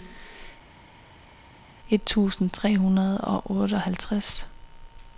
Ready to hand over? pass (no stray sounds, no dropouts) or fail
pass